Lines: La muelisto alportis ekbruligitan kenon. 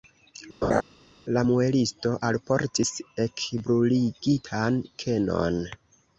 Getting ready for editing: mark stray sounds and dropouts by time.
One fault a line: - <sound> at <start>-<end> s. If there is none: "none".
- laugh at 0.6-0.8 s